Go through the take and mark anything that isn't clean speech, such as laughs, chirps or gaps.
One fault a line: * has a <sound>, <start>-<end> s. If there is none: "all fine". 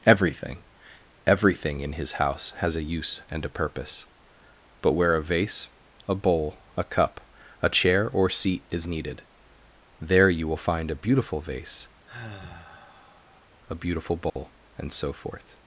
* has a sigh, 12.1-13.5 s
* has a dropout, 14.3-14.4 s